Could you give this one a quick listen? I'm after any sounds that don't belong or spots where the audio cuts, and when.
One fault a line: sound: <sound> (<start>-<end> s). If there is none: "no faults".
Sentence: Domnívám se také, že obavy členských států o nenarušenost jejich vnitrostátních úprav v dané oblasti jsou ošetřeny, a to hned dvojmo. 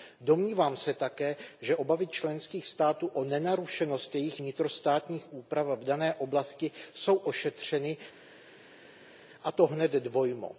no faults